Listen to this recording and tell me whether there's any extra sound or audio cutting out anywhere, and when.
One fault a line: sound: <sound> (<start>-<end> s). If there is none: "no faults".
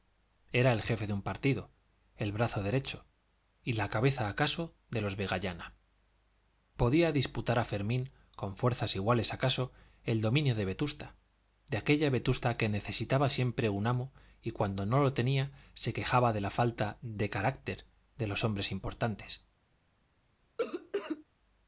sound: cough (20.6-21.2 s)